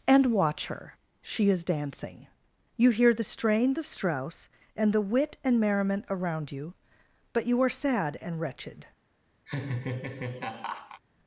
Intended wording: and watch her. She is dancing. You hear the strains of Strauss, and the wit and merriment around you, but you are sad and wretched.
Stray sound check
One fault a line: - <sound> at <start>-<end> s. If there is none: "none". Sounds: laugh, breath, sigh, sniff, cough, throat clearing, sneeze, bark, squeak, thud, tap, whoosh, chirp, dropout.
- laugh at 9.5-11.0 s